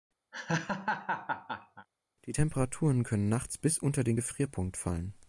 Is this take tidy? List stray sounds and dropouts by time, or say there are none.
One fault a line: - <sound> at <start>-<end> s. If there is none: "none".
- laugh at 0.3-1.9 s